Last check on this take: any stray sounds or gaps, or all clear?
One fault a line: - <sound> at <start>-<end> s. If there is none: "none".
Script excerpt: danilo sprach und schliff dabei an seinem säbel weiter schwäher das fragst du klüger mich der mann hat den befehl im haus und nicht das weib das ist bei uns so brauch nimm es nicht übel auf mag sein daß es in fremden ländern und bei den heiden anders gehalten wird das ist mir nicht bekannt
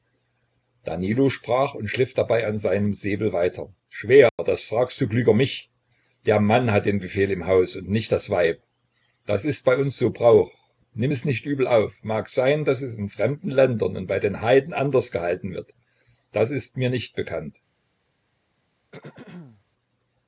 - dropout at 4.3-4.4 s
- throat clearing at 18.9-19.6 s